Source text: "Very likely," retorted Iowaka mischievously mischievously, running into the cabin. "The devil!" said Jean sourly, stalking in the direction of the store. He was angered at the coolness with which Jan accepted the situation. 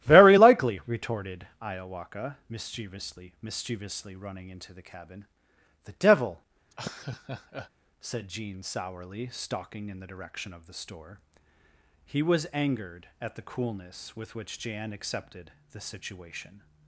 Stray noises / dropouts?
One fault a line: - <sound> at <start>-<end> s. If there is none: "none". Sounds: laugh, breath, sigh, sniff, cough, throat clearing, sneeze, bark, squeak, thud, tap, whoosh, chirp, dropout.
- laugh at 6.7-7.7 s